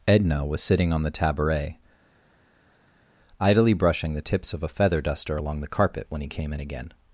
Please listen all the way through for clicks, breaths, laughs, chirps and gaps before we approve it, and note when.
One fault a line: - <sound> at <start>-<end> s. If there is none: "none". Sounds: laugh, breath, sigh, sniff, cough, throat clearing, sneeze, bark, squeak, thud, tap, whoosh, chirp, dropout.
none